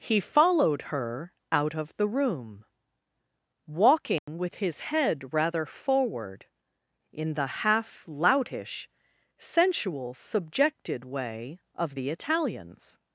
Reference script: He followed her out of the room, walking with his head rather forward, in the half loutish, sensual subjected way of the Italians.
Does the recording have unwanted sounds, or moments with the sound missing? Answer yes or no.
yes